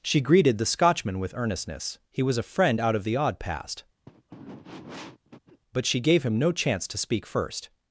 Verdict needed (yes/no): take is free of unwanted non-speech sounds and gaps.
no